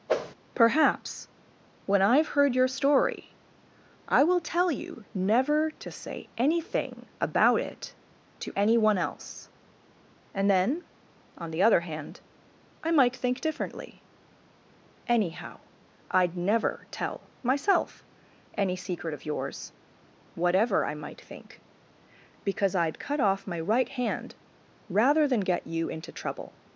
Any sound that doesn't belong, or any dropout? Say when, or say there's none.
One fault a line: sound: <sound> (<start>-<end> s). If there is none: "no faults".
sound: whoosh (0.1-0.3 s)